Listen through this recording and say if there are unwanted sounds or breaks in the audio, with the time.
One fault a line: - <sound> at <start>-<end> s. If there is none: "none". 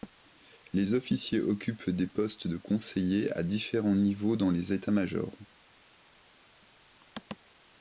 none